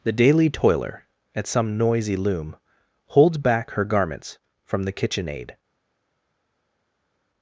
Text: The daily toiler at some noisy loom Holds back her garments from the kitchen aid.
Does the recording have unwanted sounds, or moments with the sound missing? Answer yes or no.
no